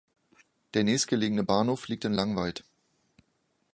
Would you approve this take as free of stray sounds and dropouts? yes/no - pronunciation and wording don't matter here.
yes